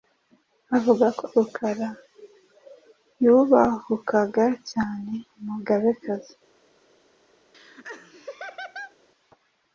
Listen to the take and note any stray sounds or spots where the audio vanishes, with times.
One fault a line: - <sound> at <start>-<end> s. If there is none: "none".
- laugh at 7.5-9.0 s